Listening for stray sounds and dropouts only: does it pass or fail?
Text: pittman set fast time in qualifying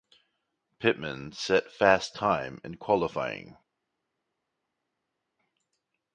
pass